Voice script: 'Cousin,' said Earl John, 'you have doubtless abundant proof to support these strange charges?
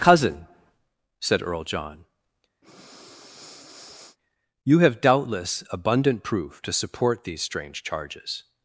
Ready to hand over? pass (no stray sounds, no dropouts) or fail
fail